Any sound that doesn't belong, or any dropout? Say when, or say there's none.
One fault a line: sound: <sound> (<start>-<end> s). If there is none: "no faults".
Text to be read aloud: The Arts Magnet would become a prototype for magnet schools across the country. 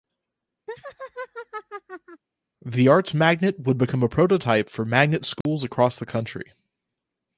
sound: laugh (0.7-2.2 s)
sound: dropout (5.4-5.5 s)